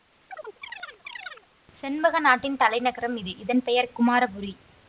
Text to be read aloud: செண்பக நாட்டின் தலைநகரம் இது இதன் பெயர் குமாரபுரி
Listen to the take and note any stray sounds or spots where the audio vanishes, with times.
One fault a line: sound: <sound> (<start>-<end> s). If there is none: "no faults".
sound: chirp (0.3-1.5 s)